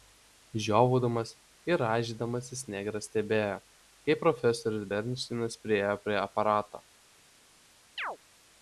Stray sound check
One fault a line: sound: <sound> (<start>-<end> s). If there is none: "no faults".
sound: chirp (8.0-8.2 s)